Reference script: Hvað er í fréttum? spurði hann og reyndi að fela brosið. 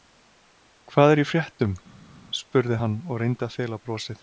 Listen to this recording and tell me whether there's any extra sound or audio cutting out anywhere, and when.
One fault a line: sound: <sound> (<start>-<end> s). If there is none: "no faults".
no faults